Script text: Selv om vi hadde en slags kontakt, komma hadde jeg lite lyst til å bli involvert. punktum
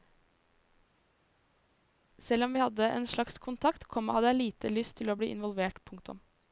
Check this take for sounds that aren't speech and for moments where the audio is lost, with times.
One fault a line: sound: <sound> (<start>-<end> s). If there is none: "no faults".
no faults